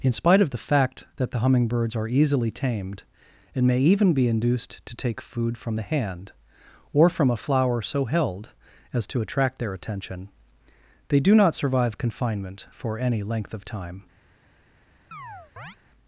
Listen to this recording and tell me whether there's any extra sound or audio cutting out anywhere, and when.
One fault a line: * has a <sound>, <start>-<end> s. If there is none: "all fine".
* has a chirp, 15.1-15.8 s